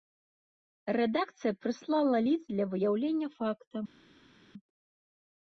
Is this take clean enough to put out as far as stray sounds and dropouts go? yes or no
yes